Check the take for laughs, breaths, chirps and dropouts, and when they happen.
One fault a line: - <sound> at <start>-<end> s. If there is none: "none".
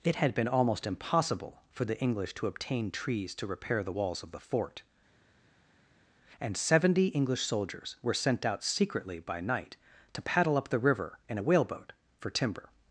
none